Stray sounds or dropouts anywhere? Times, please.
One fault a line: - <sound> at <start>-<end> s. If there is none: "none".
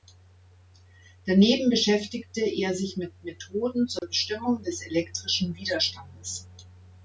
- dropout at 4.0-4.0 s